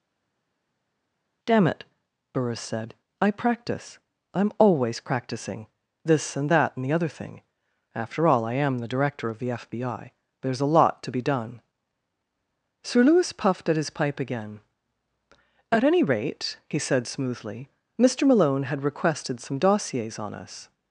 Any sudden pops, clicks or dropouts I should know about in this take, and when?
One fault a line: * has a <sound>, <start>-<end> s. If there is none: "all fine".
all fine